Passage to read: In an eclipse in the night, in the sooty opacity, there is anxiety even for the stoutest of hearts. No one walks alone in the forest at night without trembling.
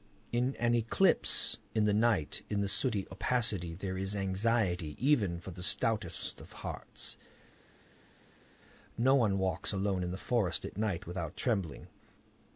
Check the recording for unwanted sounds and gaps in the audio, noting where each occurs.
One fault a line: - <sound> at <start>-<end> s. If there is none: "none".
none